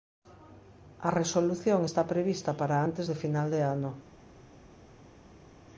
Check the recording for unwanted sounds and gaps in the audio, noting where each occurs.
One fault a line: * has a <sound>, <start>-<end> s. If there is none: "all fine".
all fine